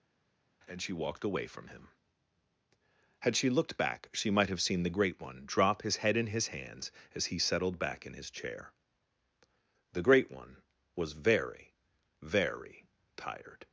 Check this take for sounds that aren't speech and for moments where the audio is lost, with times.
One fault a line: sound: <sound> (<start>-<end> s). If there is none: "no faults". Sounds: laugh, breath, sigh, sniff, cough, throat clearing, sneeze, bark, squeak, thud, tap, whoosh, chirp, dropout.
no faults